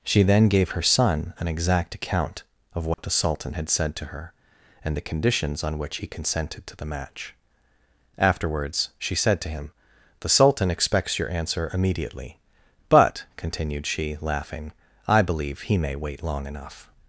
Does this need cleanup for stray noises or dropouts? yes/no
yes